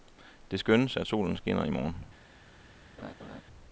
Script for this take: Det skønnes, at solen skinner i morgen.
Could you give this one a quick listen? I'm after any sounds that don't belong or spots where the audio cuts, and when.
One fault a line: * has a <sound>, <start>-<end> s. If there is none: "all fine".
* has a laugh, 3.0-3.4 s